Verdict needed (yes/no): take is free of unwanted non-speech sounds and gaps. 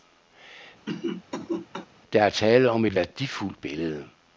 no